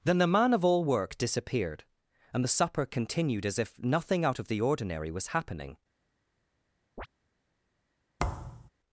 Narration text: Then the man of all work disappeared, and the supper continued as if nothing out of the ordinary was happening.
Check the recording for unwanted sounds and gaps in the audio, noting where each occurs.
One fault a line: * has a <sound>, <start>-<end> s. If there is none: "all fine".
* has a chirp, 7.0-7.1 s
* has a thud, 8.2-8.7 s